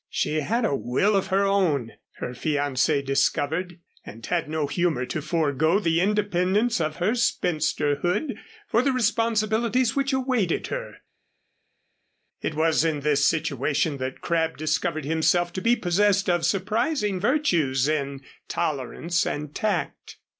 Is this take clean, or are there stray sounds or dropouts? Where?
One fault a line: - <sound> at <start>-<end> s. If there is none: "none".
none